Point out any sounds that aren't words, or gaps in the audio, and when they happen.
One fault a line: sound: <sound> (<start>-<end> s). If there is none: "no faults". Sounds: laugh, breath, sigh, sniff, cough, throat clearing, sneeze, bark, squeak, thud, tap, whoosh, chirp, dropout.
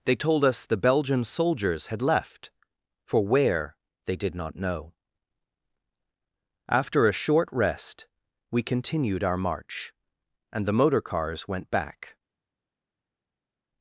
no faults